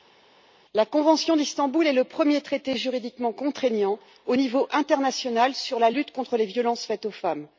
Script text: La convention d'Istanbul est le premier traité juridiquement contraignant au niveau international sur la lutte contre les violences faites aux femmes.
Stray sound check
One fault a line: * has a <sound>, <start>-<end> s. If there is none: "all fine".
all fine